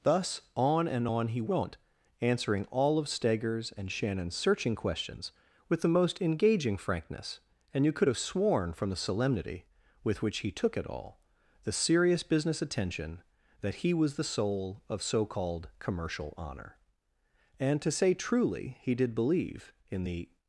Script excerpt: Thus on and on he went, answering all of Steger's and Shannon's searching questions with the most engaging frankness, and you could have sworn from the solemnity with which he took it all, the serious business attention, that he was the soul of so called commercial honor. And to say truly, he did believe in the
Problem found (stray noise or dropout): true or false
false